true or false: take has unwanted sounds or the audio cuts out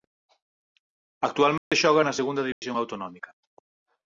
true